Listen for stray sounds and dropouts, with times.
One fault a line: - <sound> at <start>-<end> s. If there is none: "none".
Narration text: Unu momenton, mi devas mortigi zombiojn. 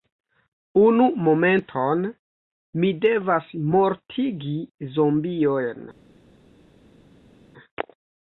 none